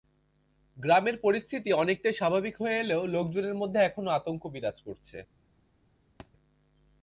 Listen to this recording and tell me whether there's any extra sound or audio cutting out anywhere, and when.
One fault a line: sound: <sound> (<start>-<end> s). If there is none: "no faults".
sound: thud (6.2-6.3 s)